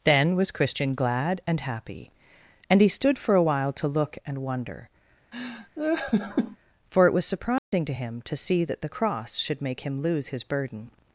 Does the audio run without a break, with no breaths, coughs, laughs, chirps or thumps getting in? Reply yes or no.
no